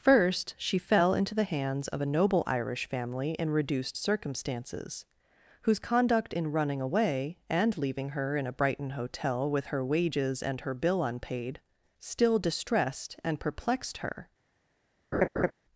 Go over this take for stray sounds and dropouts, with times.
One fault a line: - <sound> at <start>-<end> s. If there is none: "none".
- laugh at 15.1-15.5 s